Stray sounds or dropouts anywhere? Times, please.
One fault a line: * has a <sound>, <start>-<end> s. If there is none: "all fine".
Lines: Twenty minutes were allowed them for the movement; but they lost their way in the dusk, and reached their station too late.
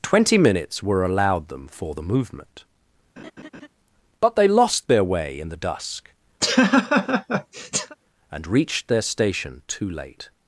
* has a laugh, 3.2-3.7 s
* has a laugh, 6.4-8.0 s